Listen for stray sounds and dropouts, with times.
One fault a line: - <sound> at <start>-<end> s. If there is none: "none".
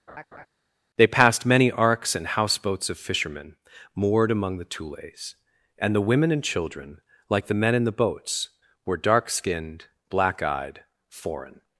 - laugh at 0.1-0.5 s